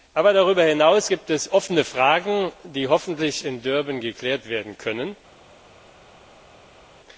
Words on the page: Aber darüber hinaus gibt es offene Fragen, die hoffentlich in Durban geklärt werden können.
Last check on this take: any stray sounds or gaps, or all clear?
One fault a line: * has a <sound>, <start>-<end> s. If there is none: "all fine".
all fine